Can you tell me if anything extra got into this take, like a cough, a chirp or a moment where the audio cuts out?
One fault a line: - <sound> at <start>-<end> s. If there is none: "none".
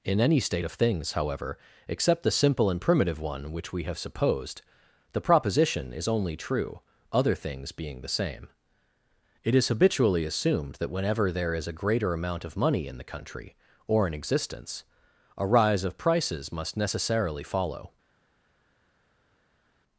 none